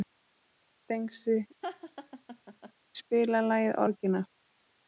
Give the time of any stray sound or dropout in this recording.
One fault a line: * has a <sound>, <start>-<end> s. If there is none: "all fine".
* has a laugh, 1.6-2.7 s